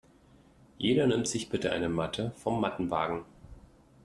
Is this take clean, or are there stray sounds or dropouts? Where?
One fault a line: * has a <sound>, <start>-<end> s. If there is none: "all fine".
all fine